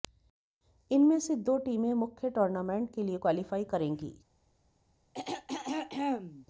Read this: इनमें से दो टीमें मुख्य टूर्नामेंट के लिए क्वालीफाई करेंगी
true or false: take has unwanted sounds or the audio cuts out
true